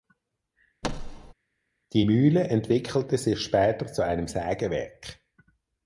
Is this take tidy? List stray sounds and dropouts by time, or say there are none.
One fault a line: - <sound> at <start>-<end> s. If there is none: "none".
- thud at 0.8-1.3 s